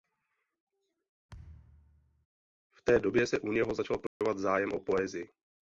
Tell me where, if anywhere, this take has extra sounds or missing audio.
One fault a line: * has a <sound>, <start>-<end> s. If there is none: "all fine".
* has a thud, 1.3-2.3 s
* has a dropout, 4.1-4.2 s